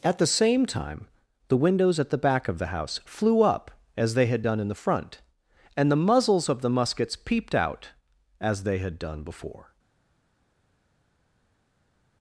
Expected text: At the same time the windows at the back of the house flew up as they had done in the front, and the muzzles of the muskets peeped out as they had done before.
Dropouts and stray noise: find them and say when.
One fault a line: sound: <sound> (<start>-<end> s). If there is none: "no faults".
no faults